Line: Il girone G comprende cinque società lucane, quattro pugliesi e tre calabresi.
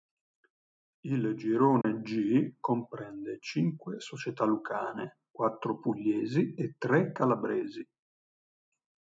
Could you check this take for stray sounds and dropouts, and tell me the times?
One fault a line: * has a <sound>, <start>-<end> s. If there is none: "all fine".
* has a dropout, 1.8-1.8 s